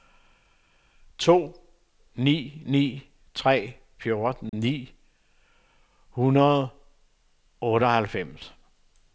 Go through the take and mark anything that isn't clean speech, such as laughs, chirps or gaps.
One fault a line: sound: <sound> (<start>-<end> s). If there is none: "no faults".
sound: dropout (4.5-4.5 s)